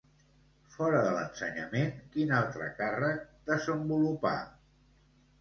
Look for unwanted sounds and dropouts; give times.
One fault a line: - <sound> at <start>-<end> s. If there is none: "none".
none